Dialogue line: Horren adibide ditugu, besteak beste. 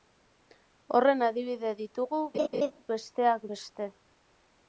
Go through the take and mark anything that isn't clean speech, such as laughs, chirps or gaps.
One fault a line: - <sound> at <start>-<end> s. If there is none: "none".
- laugh at 2.3-2.7 s